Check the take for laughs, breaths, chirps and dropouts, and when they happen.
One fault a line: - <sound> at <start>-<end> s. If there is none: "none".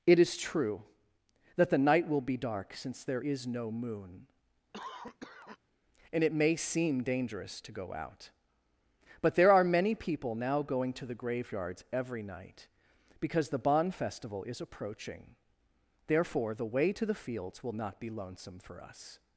- cough at 4.7-5.6 s